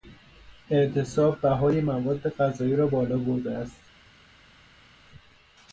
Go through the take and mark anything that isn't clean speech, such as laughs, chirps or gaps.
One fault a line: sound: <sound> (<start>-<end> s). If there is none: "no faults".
no faults